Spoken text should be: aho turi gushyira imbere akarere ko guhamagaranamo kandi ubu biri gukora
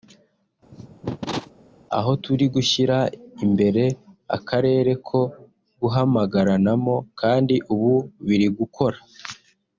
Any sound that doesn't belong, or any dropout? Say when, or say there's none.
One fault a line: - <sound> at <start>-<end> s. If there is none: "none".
- cough at 0.7-1.5 s